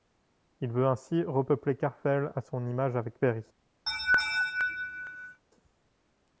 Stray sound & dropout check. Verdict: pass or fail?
fail